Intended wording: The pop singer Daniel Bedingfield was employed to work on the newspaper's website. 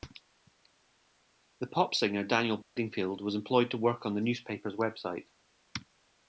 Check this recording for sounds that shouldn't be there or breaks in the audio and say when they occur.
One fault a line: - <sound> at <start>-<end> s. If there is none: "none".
- dropout at 2.6-2.8 s